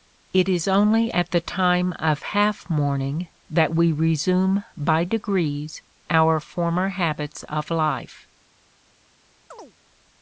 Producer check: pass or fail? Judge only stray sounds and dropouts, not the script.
fail